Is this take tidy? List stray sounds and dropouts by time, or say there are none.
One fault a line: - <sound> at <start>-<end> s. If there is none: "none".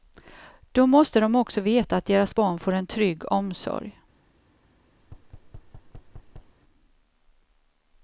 - thud at 5.0-6.6 s